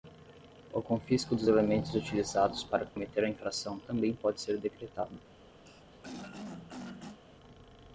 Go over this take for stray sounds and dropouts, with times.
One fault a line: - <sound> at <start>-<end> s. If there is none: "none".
- dropout at 2.9-3.0 s
- throat clearing at 5.7-7.2 s